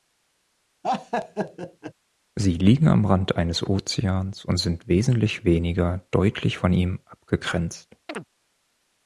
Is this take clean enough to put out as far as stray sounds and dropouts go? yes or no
no